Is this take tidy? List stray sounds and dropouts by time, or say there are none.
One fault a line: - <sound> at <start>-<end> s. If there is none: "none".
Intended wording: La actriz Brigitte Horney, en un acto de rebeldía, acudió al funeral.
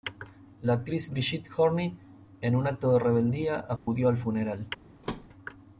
- dropout at 3.8-3.9 s
- thud at 5.0-5.3 s